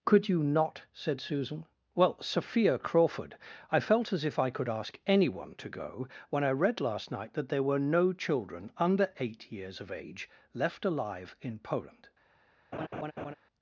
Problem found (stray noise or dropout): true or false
true